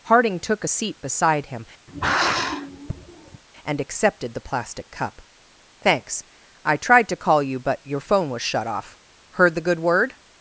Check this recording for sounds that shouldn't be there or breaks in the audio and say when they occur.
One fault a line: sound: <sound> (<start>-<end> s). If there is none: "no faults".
sound: sigh (1.9-3.4 s)